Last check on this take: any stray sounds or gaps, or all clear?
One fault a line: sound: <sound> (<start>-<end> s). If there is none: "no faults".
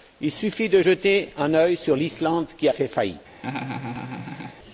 sound: laugh (3.4-4.6 s)